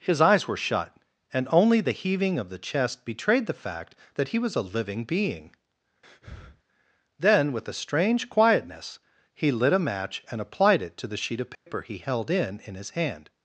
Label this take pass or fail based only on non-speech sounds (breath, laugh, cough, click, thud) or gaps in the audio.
fail